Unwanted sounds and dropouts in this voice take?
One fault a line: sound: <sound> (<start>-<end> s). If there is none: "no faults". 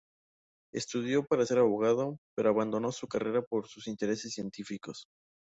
no faults